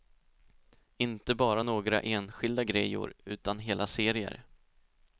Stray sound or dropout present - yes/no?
no